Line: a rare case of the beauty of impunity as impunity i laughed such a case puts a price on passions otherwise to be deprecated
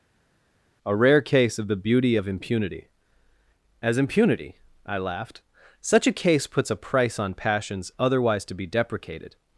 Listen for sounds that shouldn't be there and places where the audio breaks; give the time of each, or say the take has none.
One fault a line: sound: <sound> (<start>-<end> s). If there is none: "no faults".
no faults